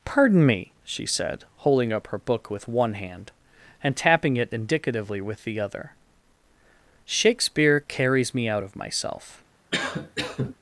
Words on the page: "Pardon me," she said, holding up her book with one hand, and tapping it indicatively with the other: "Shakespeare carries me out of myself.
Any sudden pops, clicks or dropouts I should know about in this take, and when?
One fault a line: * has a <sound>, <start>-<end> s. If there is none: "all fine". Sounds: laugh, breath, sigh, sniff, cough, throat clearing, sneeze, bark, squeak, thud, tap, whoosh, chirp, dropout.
* has a cough, 9.7-10.6 s